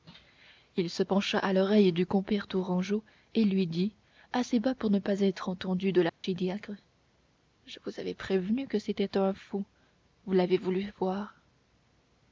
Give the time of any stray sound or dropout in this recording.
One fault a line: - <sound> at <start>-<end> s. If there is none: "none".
- dropout at 6.1-6.2 s